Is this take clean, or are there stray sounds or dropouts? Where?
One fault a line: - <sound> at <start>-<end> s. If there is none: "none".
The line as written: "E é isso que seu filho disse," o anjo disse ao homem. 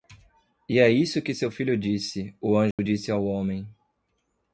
- dropout at 2.7-2.8 s